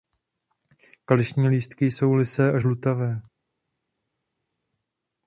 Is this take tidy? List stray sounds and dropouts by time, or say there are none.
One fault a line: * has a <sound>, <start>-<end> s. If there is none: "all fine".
all fine